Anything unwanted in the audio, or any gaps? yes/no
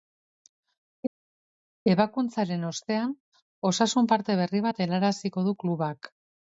no